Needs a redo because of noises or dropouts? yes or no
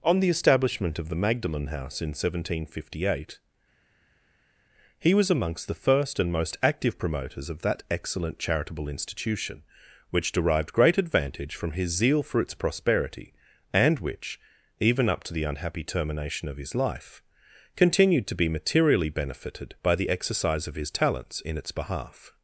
no